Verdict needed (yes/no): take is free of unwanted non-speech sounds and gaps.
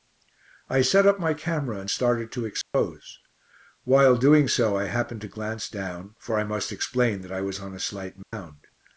no